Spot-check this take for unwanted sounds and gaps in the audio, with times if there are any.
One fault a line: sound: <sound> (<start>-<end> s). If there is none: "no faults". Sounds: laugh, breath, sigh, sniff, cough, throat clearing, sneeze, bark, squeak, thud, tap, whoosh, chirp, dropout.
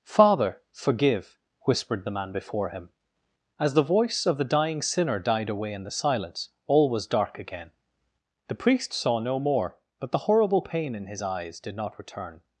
no faults